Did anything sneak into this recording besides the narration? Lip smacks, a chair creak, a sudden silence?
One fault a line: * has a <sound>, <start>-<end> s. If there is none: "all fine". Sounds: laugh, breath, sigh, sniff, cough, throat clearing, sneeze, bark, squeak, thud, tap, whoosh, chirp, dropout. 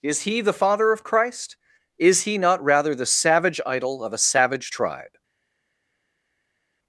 all fine